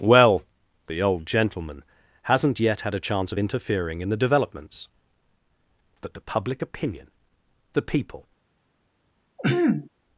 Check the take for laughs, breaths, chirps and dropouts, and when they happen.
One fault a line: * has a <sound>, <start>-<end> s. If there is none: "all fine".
* has a throat clearing, 9.4-9.9 s